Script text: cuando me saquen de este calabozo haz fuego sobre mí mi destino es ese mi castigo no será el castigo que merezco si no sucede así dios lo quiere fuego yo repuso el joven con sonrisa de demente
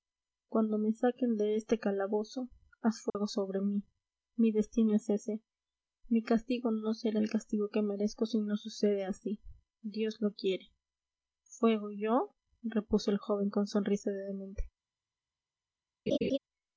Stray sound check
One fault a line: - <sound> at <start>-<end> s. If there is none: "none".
- dropout at 3.1-3.2 s
- laugh at 16.1-16.4 s